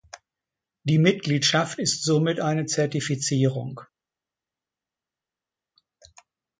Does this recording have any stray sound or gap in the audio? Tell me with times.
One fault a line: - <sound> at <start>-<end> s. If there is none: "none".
none